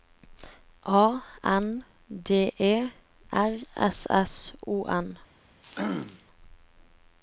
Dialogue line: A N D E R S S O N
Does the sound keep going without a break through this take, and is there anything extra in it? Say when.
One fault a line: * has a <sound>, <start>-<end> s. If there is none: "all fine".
* has a throat clearing, 5.6-6.2 s